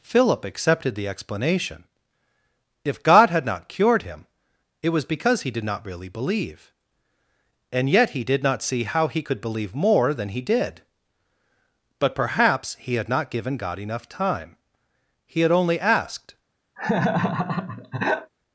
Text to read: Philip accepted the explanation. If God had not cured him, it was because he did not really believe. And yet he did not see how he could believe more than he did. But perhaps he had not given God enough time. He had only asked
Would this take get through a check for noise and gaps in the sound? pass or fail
fail